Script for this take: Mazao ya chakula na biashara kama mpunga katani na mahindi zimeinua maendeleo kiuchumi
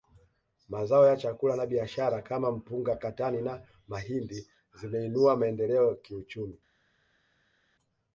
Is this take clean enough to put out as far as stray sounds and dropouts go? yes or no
yes